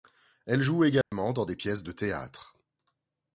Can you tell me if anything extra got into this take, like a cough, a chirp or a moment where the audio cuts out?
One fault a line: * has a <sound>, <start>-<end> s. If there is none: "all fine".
* has a dropout, 1.0-1.1 s